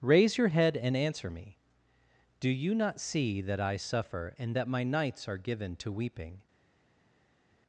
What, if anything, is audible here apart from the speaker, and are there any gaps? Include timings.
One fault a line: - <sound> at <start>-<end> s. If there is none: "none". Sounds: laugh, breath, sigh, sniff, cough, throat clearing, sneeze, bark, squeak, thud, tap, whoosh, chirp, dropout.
none